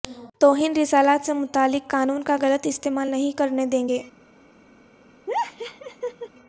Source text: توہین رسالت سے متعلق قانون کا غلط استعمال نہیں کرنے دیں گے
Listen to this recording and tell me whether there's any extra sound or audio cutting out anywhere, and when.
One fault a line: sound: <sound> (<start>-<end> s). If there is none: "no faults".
sound: laugh (5.3-6.3 s)